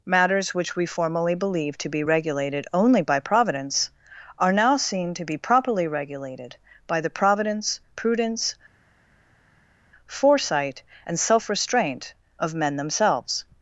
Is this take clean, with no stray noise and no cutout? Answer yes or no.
yes